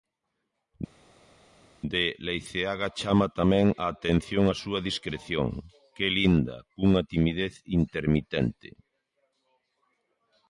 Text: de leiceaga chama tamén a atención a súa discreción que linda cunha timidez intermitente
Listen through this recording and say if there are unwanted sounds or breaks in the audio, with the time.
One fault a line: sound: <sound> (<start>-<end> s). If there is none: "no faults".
no faults